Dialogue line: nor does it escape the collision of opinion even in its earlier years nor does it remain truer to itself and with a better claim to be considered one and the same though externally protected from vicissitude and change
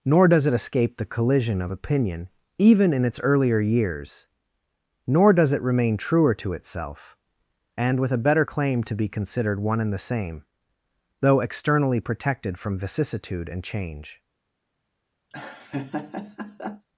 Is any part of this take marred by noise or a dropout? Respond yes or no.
yes